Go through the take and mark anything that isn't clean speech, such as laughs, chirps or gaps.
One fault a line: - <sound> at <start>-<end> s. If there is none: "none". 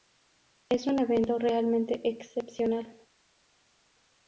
none